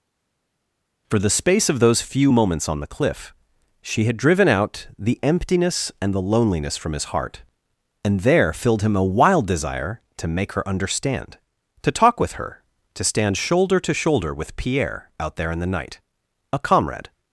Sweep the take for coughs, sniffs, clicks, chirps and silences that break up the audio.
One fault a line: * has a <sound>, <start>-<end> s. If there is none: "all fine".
all fine